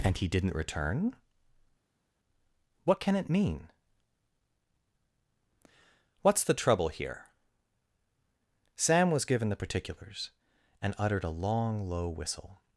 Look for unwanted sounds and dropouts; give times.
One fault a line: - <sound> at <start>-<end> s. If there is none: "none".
none